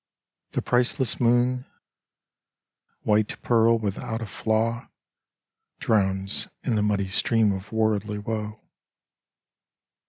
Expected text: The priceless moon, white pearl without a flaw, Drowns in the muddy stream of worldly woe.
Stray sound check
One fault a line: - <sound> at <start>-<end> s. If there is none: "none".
none